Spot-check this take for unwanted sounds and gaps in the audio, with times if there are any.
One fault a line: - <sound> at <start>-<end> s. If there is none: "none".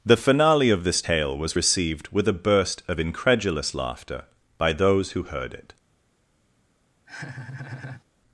- laugh at 7.1-8.0 s